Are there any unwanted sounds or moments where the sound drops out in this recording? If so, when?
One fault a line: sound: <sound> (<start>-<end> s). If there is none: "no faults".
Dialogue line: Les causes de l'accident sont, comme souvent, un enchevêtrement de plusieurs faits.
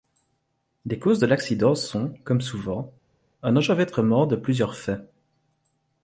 no faults